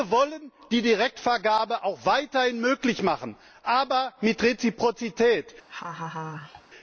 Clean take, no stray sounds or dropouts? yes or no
no